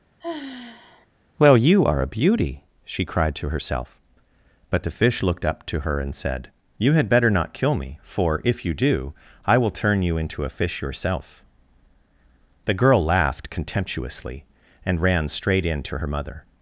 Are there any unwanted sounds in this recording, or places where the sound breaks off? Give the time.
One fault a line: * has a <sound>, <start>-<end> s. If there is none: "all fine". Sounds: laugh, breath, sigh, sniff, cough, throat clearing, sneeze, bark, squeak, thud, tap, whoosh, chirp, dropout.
* has a sigh, 0.2-1.1 s